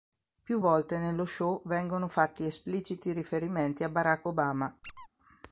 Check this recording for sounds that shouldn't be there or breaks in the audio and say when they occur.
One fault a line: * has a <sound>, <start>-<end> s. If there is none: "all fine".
* has a squeak, 4.8-5.1 s